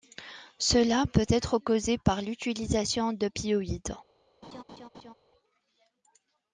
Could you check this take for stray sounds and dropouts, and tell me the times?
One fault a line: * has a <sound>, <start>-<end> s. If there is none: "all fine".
* has a laugh, 4.4-5.1 s